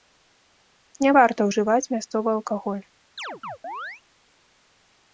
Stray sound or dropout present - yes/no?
yes